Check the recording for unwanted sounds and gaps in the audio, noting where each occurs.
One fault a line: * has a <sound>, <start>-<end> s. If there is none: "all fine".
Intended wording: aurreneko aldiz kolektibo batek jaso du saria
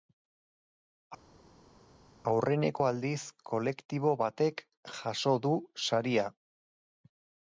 all fine